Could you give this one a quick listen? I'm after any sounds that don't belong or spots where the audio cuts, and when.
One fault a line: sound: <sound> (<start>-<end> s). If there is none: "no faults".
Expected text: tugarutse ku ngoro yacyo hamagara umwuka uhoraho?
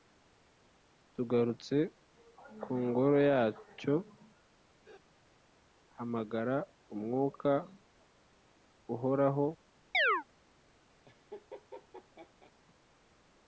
sound: chirp (9.9-10.2 s)
sound: laugh (11.1-12.5 s)